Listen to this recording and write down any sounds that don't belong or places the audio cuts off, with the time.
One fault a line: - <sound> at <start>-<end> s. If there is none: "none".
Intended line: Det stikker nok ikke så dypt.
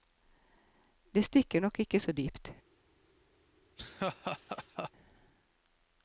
- laugh at 3.8-4.9 s